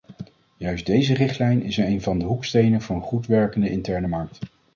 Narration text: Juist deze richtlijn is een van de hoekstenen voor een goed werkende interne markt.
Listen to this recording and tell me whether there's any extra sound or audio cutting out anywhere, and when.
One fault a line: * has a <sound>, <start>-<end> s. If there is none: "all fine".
all fine